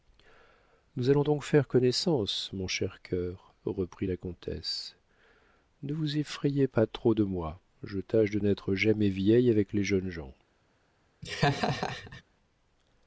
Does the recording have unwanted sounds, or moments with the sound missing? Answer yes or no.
yes